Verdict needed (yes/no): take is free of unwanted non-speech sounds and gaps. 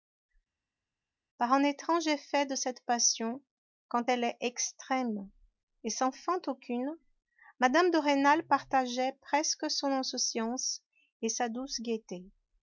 yes